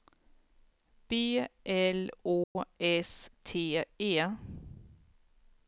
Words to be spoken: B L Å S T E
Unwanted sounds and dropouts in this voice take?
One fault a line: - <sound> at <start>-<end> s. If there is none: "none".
- dropout at 2.4-2.6 s